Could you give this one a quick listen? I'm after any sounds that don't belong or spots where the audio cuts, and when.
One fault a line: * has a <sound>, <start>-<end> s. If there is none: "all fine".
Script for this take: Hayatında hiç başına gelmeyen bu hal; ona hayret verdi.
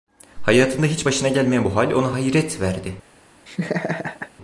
* has a laugh, 3.5-4.3 s